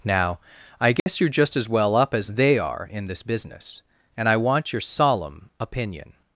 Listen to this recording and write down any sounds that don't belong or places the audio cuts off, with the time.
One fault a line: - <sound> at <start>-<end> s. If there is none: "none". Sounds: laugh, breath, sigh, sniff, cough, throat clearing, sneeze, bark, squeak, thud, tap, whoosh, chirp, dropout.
- dropout at 1.0-1.1 s